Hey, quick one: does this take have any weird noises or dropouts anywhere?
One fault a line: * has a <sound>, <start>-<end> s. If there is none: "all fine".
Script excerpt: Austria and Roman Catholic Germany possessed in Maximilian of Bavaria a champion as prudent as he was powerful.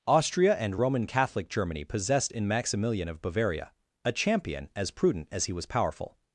all fine